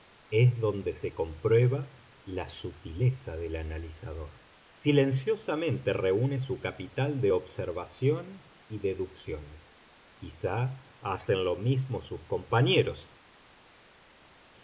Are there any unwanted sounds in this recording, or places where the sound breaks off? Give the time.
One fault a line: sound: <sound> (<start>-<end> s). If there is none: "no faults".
no faults